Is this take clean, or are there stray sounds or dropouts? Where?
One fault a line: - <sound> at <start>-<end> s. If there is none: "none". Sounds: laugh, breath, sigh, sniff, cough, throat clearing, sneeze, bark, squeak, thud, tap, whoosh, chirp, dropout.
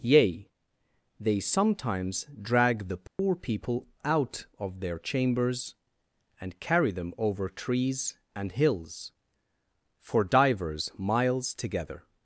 - dropout at 3.1-3.2 s